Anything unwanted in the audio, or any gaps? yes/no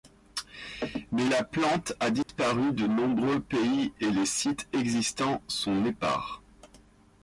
yes